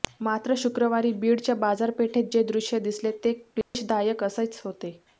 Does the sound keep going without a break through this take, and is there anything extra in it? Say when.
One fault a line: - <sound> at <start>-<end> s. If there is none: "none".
- dropout at 3.6-3.7 s